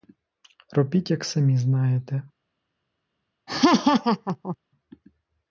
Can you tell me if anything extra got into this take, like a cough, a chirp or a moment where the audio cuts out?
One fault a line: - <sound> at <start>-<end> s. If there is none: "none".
- laugh at 3.5-4.6 s